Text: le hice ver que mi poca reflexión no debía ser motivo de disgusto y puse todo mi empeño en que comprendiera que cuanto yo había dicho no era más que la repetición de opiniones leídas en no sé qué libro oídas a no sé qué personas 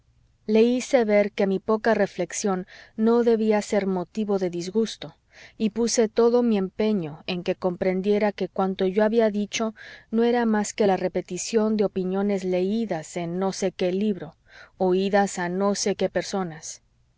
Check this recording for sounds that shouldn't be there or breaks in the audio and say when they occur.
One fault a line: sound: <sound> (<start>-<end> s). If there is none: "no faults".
no faults